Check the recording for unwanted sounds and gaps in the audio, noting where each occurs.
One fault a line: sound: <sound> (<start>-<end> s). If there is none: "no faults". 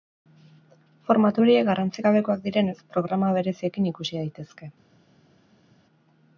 no faults